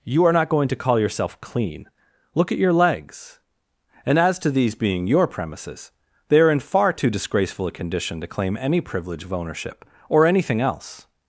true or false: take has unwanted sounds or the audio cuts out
false